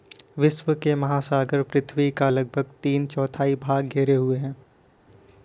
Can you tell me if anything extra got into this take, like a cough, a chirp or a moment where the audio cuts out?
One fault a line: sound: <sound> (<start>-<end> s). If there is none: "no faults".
no faults